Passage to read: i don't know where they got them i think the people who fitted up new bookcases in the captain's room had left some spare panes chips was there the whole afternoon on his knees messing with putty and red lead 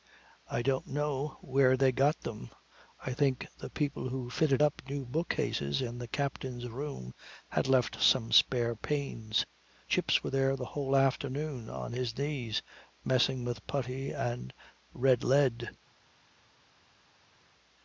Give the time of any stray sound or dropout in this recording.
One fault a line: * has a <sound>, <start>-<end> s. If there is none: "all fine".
all fine